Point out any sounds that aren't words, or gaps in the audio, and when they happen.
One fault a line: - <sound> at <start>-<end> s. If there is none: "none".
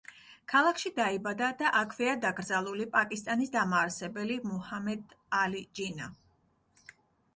none